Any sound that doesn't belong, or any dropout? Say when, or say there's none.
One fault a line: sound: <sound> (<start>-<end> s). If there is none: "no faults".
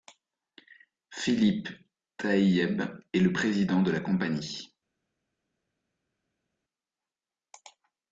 no faults